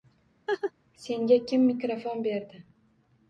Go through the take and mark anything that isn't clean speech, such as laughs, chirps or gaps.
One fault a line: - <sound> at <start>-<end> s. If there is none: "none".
- laugh at 0.5-0.7 s